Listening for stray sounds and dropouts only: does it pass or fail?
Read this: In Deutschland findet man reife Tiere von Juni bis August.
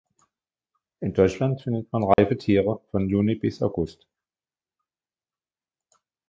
fail